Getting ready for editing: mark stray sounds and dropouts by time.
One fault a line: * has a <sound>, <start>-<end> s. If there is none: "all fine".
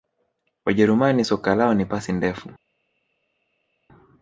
all fine